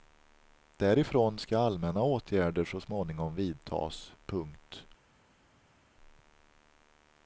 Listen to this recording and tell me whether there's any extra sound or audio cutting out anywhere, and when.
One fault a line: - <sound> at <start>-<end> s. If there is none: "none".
none